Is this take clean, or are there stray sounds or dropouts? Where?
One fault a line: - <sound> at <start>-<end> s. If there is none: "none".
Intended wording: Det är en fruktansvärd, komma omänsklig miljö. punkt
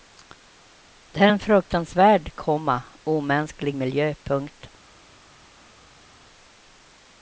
none